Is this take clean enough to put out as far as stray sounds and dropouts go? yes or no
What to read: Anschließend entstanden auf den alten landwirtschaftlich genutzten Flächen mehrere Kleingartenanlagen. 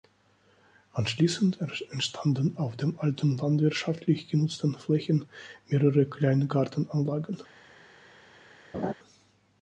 no